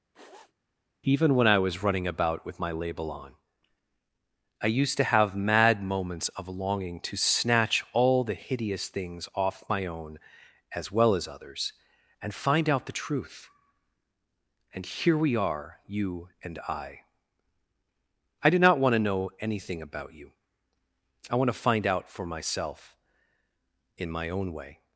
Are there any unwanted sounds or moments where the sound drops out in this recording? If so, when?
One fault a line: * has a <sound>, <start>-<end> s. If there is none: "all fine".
* has a sniff, 0.1-0.5 s